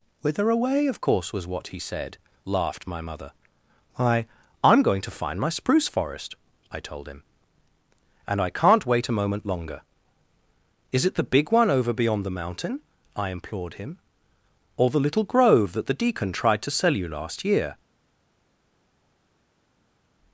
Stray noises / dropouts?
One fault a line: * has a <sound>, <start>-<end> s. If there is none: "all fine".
all fine